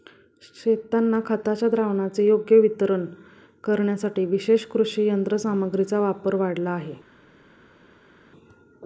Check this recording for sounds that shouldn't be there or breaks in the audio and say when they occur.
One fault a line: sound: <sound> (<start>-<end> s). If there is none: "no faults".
no faults